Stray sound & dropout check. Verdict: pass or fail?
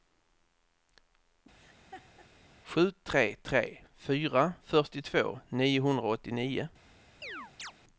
fail